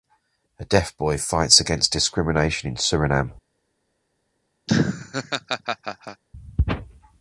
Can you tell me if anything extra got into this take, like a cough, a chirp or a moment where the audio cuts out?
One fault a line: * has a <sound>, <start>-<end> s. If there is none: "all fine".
* has a laugh, 4.7-6.2 s